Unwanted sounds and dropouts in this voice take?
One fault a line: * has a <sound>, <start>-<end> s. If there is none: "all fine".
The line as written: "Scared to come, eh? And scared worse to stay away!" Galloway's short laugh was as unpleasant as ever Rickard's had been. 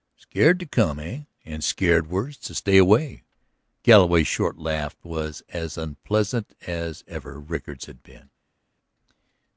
all fine